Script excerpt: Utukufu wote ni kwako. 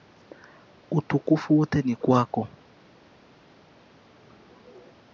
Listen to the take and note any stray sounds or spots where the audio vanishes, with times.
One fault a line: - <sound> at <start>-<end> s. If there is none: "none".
none